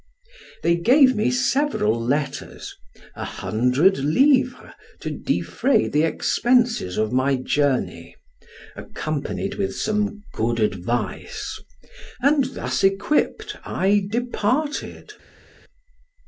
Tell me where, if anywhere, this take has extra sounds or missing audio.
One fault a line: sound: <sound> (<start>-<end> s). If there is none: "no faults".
no faults